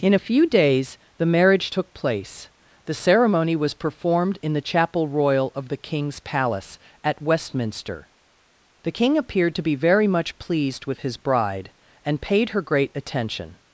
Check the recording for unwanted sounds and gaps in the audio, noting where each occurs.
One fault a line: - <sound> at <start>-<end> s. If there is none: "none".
none